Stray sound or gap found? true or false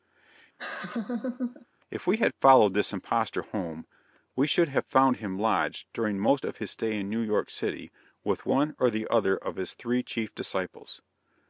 true